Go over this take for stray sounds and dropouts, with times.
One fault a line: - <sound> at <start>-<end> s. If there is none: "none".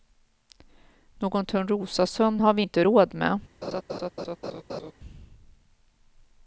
- laugh at 3.6-4.9 s